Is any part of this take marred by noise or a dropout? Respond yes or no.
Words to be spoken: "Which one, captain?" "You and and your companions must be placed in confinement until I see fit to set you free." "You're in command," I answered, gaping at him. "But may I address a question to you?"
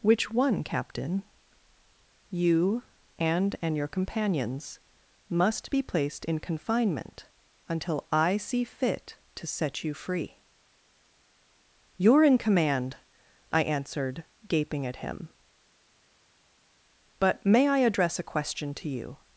no